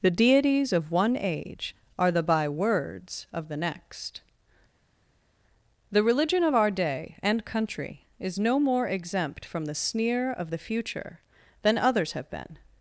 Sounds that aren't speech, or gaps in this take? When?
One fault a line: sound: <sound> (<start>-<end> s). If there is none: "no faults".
no faults